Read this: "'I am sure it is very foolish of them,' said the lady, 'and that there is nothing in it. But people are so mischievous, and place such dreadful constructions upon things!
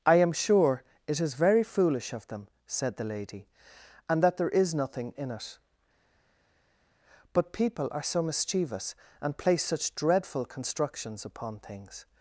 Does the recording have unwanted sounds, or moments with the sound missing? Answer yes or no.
no